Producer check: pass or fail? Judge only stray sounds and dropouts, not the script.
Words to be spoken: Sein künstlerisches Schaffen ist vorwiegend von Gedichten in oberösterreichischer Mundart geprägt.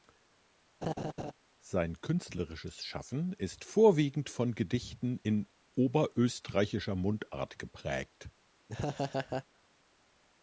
fail